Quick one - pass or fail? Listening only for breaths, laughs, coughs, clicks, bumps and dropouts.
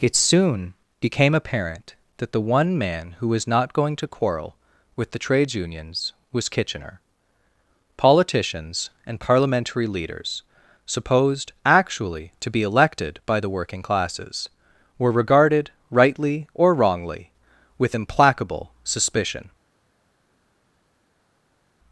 pass